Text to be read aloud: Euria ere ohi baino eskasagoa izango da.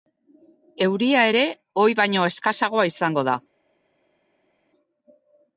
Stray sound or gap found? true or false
false